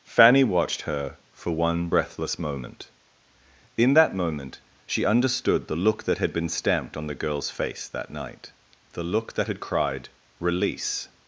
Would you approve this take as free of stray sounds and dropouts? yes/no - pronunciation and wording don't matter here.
yes